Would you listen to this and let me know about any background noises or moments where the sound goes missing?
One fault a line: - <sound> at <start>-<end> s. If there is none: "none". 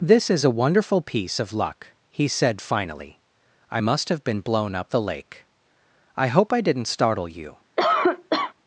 - cough at 7.8-8.5 s